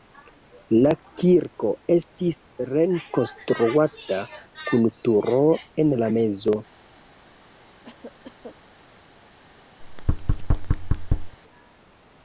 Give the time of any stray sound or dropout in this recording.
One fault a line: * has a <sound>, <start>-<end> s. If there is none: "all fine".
* has a cough, 7.8-8.6 s
* has a thud, 9.8-11.4 s